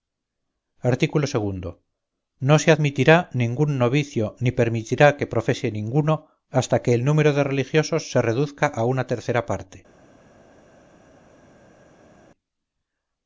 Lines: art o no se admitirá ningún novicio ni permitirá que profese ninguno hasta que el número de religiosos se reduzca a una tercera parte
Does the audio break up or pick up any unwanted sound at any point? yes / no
no